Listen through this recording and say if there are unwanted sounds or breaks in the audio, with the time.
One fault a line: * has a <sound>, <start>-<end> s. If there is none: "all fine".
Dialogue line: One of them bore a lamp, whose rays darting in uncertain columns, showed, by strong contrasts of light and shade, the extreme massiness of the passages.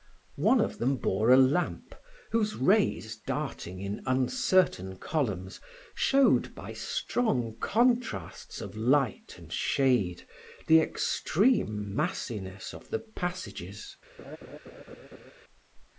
* has a laugh, 14.2-15.3 s